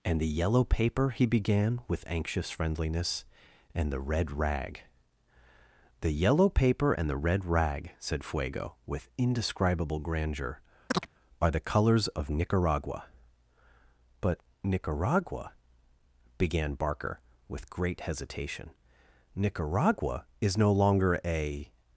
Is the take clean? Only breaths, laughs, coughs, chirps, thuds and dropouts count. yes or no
no